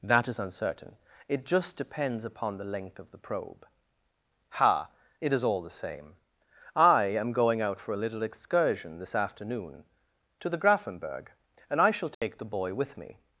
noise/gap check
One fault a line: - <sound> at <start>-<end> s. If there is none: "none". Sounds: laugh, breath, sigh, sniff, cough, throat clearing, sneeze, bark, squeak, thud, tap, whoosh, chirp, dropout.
- dropout at 12.1-12.2 s